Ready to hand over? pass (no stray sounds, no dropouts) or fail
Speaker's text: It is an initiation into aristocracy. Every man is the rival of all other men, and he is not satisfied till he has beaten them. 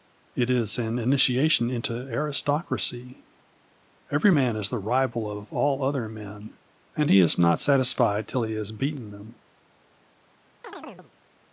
fail